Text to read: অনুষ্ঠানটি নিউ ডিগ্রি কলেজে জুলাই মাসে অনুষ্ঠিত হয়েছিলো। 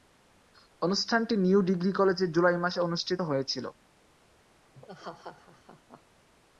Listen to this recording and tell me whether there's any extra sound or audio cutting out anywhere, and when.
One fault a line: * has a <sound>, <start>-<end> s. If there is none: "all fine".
* has a laugh, 4.7-6.0 s